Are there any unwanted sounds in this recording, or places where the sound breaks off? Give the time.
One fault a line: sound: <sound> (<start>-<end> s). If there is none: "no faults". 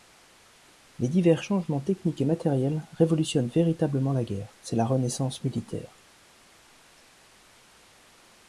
no faults